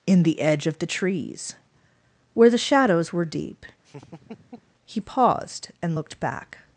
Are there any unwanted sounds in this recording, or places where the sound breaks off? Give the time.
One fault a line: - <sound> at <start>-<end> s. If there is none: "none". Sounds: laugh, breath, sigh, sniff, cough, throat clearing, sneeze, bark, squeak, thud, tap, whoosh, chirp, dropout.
- laugh at 3.8-4.7 s